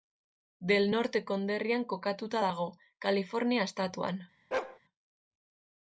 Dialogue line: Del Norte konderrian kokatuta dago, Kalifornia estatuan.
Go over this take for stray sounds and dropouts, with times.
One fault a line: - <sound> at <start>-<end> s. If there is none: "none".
- bark at 4.5-4.8 s